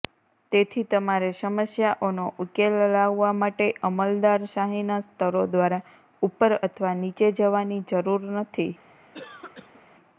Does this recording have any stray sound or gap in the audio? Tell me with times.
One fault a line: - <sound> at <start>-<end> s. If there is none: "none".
- cough at 9.1-9.8 s